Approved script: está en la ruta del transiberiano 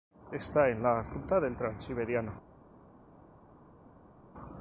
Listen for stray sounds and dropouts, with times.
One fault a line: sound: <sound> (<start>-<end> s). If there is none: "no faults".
no faults